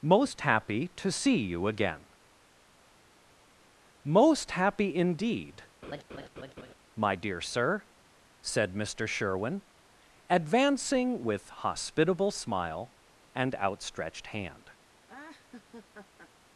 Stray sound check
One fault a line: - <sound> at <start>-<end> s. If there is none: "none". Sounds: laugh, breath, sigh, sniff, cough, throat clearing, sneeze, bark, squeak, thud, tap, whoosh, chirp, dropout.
- laugh at 5.8-6.7 s
- laugh at 15.1-16.3 s